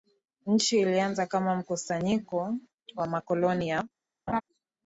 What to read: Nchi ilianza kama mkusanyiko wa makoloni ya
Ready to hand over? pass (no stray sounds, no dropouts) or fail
fail